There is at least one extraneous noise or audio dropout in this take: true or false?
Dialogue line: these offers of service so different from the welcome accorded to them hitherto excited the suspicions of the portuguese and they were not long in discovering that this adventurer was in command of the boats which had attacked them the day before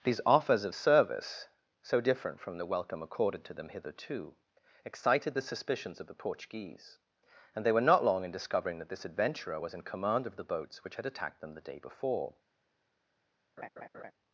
true